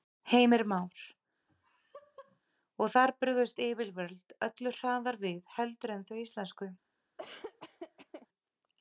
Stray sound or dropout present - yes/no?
yes